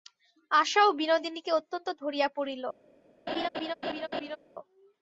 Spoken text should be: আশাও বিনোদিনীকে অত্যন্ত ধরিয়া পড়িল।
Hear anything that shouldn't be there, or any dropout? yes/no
yes